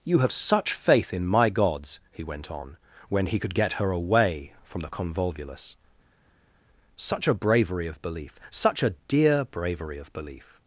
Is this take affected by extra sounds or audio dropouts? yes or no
no